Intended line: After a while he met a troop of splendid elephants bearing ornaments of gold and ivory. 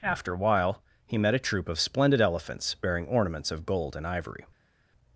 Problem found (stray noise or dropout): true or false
false